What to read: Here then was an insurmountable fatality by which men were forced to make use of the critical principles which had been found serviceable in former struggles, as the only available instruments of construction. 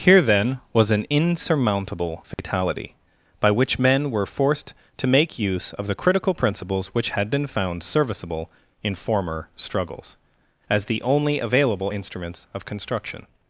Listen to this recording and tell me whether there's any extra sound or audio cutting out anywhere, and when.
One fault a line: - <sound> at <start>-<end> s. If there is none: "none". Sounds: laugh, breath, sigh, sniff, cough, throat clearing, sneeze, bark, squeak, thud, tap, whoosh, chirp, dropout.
- dropout at 2.3-2.4 s